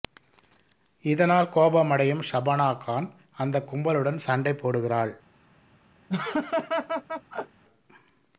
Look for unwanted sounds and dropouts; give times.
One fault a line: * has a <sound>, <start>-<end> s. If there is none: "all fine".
* has a laugh, 6.1-7.6 s